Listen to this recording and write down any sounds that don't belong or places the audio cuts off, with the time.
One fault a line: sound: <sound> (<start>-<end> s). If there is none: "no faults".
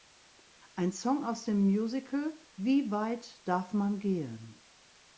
no faults